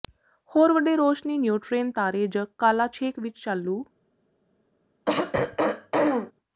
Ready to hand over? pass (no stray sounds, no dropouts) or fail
fail